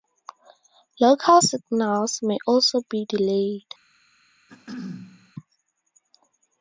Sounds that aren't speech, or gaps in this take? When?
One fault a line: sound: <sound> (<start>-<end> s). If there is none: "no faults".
sound: throat clearing (4.5-5.3 s)